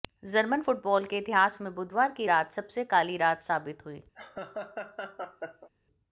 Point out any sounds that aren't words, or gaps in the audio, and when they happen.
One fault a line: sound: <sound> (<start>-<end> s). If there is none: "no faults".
sound: laugh (4.1-5.7 s)